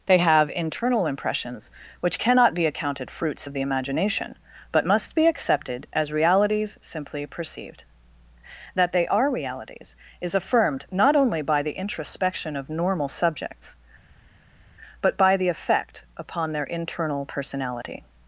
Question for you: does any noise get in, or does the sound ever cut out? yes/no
no